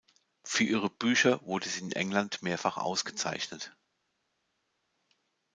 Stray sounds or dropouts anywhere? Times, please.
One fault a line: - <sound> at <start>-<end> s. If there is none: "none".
none